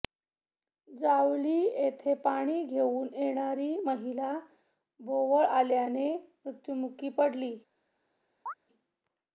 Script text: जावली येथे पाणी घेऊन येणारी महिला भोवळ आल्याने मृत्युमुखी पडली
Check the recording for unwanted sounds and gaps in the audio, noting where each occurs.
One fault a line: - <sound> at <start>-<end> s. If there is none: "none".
- chirp at 8.5-8.5 s